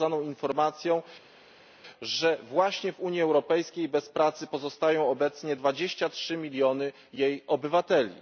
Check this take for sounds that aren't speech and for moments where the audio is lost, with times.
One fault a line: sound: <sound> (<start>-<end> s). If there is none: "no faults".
no faults